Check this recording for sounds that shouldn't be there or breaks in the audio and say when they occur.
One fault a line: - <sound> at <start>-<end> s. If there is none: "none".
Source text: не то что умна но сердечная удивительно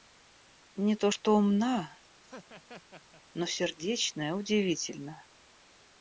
- laugh at 2.2-3.2 s